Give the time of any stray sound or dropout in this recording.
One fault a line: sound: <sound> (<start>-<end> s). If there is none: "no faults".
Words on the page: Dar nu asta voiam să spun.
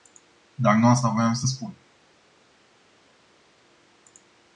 no faults